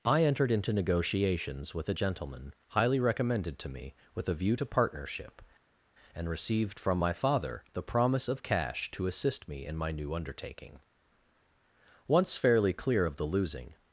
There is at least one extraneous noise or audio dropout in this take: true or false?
false